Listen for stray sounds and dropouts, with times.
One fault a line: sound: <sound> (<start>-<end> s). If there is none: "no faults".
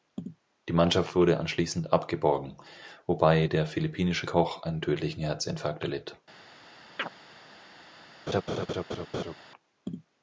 sound: chirp (7.0-7.1 s)
sound: laugh (8.3-9.3 s)